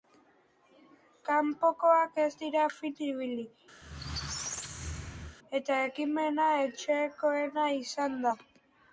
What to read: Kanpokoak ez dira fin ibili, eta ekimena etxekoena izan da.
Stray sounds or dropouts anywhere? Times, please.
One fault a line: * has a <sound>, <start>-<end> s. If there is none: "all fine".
* has a squeak, 3.8-5.4 s